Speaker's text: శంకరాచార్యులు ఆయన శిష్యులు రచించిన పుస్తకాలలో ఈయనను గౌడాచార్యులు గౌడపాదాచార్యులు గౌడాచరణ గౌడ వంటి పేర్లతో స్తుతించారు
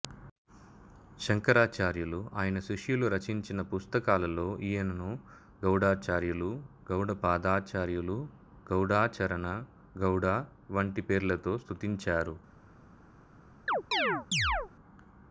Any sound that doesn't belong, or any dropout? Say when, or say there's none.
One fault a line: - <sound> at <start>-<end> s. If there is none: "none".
- chirp at 13.7-14.7 s